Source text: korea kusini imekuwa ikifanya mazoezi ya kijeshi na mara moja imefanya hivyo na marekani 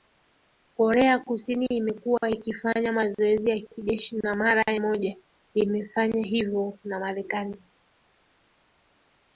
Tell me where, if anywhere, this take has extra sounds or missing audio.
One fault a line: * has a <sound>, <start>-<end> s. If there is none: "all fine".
all fine